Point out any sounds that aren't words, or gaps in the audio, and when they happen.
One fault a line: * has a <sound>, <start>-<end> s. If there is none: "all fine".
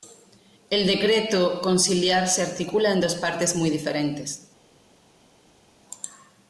all fine